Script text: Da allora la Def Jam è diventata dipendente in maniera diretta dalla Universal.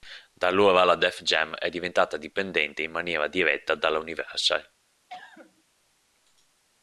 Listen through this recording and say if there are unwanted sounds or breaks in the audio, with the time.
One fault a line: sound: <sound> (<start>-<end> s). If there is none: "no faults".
sound: cough (5.1-5.6 s)